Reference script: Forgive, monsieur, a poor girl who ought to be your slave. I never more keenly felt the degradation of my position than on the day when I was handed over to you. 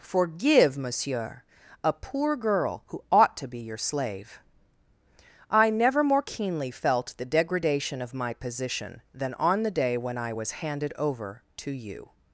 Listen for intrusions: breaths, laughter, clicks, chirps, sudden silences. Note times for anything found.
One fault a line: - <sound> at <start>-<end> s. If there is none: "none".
none